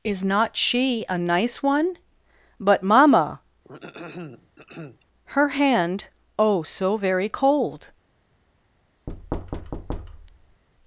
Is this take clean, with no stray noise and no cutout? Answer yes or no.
no